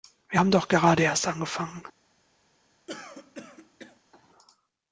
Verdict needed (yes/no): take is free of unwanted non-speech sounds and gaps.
no